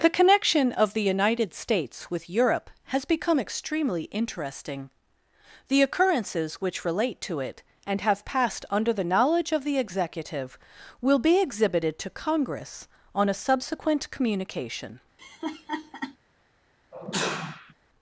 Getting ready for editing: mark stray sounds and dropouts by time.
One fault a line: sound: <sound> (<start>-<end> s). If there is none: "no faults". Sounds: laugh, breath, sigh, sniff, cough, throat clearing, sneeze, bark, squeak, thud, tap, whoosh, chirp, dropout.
sound: laugh (15.2-16.2 s)
sound: sneeze (16.9-17.7 s)